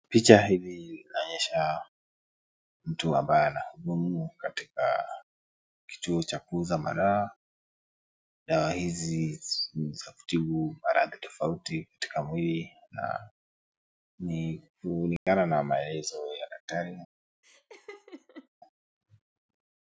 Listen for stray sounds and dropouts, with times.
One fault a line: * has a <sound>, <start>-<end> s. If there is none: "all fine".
* has a dropout, 15.2-15.3 s
* has a laugh, 17.4-18.5 s